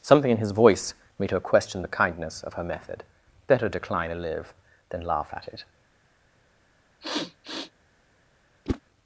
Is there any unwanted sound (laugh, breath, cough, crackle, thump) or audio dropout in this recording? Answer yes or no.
yes